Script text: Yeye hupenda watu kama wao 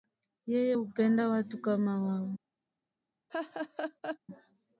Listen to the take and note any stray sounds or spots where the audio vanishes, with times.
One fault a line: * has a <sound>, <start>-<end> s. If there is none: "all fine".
* has a laugh, 3.3-4.2 s